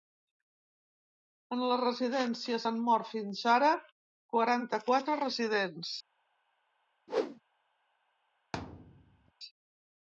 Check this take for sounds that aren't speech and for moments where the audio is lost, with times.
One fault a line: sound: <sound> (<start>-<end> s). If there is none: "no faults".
sound: whoosh (7.1-7.4 s)
sound: thud (8.5-9.3 s)